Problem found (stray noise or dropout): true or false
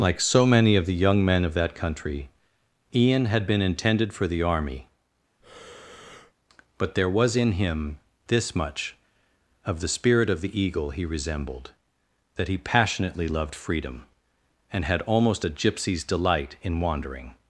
true